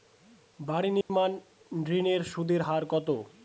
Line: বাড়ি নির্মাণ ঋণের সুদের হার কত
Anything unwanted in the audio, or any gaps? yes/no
yes